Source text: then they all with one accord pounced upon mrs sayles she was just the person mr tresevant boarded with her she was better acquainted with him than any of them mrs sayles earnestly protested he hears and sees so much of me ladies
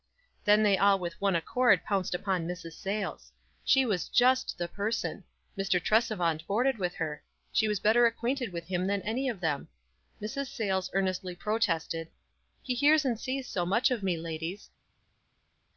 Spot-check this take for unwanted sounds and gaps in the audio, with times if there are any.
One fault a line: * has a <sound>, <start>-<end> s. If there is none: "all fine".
all fine